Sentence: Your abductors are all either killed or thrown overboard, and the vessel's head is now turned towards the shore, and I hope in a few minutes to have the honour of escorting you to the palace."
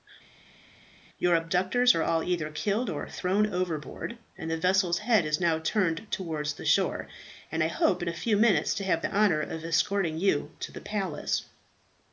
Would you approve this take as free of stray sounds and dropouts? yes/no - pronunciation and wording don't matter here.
yes